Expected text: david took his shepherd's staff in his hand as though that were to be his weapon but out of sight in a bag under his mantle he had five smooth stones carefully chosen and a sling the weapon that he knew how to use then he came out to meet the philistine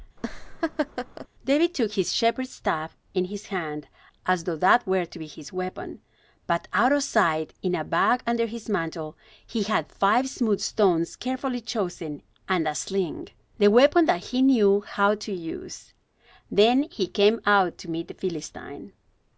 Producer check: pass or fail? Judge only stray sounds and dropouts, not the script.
fail